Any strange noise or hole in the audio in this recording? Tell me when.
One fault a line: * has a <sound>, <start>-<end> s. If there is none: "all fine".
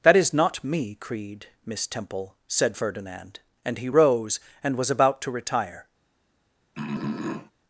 * has a throat clearing, 6.7-7.5 s